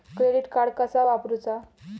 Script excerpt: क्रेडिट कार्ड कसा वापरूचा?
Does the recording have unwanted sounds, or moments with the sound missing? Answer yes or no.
no